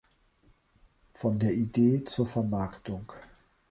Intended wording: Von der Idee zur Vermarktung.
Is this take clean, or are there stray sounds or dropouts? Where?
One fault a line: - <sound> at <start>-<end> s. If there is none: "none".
none